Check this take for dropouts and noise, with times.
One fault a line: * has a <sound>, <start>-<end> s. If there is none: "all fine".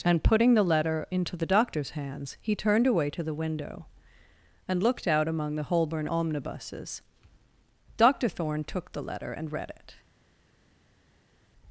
all fine